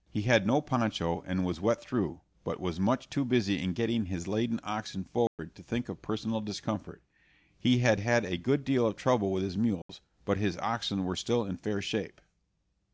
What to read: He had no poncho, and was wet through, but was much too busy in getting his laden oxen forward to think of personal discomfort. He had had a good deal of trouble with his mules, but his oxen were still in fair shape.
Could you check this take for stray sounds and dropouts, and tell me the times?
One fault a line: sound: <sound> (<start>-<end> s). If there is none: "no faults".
sound: dropout (5.3-5.4 s)
sound: dropout (9.8-9.9 s)